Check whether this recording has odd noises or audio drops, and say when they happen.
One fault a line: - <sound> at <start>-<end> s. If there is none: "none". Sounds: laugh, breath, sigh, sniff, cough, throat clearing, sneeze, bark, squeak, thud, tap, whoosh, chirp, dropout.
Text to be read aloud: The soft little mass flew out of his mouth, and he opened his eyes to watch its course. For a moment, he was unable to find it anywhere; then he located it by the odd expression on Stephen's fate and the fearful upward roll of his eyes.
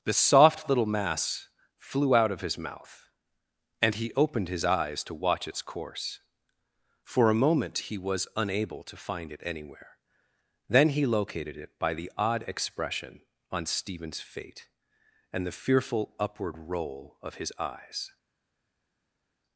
none